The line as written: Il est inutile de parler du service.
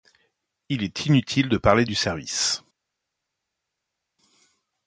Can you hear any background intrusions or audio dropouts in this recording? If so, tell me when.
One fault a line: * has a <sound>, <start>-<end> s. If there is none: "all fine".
all fine